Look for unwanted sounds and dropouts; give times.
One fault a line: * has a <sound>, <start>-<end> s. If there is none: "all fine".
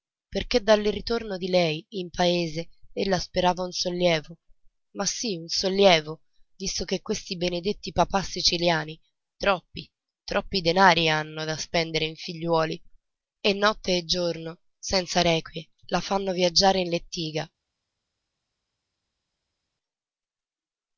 all fine